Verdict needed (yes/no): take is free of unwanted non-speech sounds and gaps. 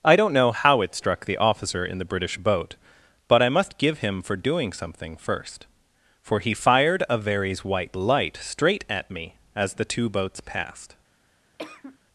no